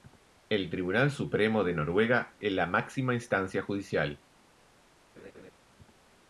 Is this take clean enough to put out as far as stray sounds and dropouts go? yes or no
no